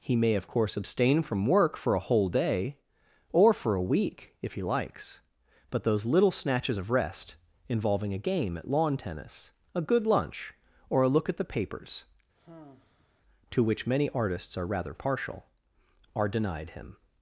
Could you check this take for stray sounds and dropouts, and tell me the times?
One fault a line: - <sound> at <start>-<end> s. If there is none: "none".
- sigh at 12.4-13.2 s